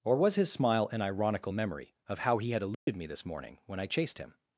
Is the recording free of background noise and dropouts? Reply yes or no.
no